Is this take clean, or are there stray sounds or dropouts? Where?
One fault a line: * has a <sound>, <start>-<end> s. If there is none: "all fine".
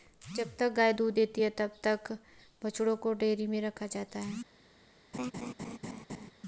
* has a laugh, 5.1-6.3 s